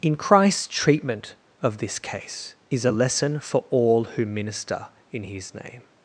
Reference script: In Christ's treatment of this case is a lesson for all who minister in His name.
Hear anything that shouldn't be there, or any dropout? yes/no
no